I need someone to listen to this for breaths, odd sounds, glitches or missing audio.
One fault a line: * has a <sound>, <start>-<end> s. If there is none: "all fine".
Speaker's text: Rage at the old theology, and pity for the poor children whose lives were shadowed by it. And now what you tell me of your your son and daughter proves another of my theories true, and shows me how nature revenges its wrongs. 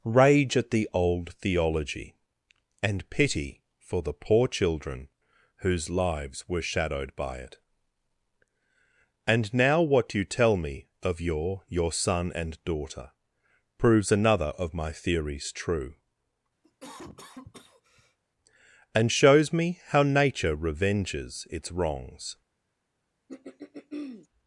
* has a cough, 16.6-18.2 s
* has a throat clearing, 23.3-24.3 s